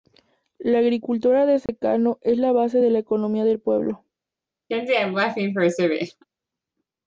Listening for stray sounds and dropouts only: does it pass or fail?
fail